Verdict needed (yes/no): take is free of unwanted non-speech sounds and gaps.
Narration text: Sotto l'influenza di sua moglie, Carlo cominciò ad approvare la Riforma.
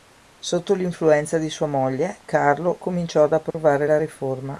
no